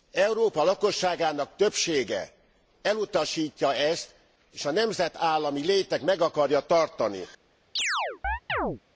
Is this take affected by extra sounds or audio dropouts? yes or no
yes